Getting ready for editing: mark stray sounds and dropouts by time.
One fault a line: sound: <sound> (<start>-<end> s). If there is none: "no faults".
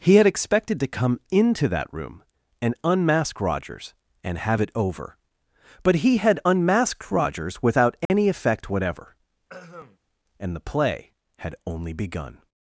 sound: dropout (8.1-8.1 s)
sound: throat clearing (9.5-10.0 s)